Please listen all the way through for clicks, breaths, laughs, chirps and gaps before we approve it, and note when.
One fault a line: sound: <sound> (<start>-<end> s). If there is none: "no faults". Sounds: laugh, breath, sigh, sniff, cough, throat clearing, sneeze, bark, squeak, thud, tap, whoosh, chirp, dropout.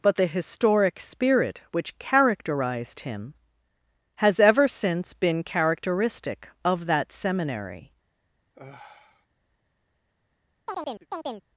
sound: sigh (8.5-9.3 s)
sound: chirp (10.7-11.5 s)